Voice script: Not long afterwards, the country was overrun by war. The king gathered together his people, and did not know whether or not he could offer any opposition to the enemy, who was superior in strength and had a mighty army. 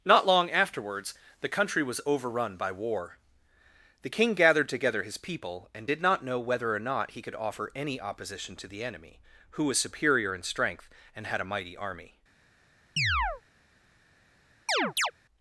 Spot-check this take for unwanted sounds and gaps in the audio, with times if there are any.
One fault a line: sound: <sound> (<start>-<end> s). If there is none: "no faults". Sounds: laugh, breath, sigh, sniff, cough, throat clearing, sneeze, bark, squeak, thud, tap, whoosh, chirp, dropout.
sound: chirp (13.0-13.4 s)
sound: chirp (14.7-15.1 s)